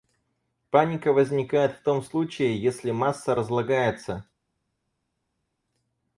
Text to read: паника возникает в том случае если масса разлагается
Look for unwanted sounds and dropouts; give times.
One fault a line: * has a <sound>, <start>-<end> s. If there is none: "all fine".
all fine